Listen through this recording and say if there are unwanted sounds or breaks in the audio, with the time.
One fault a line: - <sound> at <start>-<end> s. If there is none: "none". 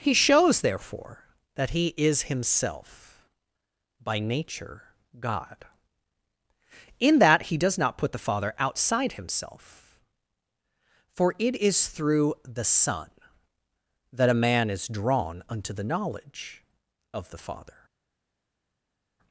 none